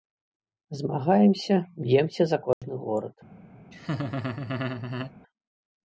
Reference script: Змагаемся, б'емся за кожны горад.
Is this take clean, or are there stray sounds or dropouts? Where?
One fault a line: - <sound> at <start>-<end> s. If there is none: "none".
- dropout at 2.5-2.6 s
- laugh at 3.7-5.1 s